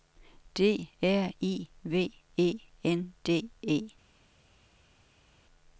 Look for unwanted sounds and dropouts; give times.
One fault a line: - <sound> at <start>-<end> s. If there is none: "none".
none